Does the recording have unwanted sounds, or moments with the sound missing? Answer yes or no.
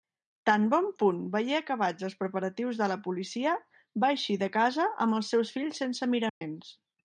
yes